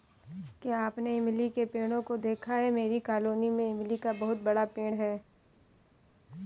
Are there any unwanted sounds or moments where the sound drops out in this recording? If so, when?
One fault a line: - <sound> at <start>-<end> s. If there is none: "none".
none